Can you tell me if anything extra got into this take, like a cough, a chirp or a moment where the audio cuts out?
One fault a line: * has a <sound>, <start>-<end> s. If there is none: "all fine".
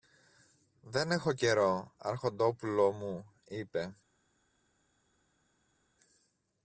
all fine